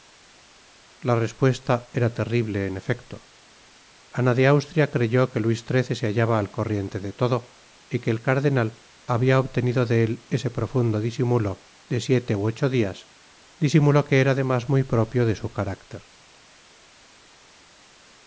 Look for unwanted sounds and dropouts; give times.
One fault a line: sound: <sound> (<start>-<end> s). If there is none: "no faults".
no faults